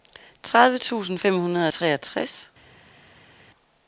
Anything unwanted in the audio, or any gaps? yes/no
no